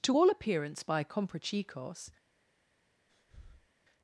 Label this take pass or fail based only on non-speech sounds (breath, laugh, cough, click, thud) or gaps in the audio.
fail